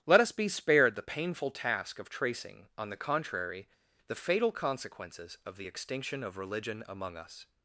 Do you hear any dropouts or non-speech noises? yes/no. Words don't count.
no